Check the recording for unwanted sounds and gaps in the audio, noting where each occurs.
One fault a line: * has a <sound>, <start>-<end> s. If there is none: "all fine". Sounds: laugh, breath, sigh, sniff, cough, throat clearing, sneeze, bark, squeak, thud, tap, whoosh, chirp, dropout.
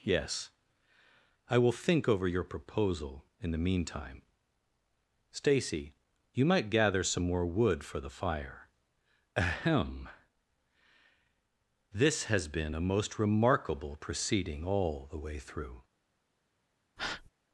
* has a breath, 17.0-17.3 s